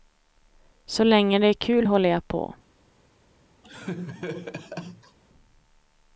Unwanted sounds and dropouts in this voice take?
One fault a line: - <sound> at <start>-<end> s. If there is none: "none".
- laugh at 3.6-5.2 s